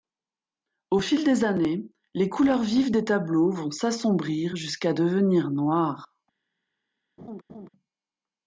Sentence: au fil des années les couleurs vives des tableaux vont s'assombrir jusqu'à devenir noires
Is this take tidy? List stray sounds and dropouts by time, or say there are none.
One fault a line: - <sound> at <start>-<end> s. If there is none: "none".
- laugh at 7.2-7.7 s